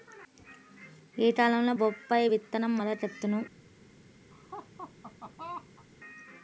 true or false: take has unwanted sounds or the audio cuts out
true